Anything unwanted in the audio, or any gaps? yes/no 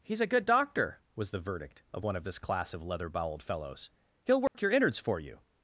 yes